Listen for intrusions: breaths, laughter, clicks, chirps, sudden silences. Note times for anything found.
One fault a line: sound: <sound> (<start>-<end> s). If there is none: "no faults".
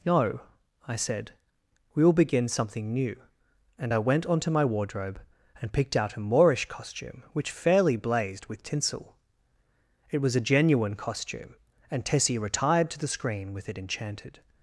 no faults